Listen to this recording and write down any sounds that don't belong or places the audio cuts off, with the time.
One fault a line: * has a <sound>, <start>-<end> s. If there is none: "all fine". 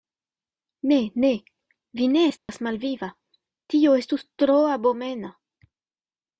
* has a dropout, 2.4-2.5 s